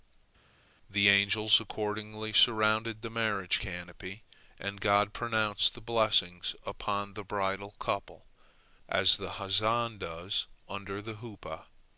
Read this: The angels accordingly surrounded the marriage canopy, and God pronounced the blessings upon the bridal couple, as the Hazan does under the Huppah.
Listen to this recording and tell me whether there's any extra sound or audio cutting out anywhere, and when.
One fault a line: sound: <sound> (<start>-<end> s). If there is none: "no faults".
no faults